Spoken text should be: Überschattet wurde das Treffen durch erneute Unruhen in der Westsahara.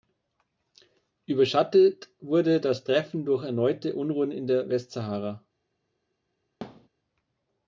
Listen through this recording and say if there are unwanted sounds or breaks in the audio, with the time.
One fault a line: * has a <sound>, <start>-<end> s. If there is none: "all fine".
* has a thud, 6.6-6.9 s